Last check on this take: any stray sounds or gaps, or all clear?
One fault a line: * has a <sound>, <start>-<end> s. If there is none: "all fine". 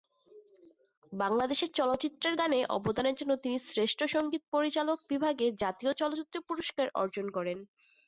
all fine